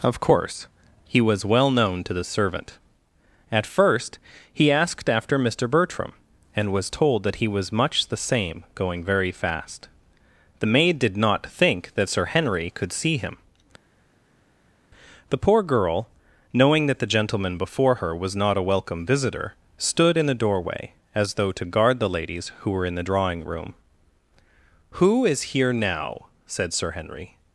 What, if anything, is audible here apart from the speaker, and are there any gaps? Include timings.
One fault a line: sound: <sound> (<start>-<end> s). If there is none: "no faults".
no faults